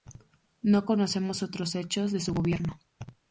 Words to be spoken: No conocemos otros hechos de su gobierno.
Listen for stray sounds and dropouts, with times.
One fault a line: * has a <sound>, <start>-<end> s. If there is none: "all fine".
all fine